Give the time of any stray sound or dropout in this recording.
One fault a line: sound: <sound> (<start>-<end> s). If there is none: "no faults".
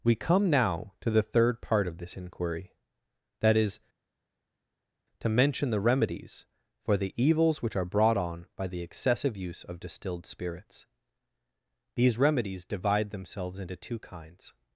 no faults